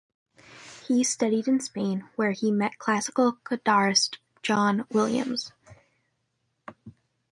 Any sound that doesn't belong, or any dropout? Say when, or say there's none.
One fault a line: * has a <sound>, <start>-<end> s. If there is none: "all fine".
all fine